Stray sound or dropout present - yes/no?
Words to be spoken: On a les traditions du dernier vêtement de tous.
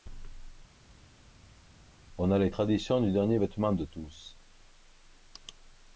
no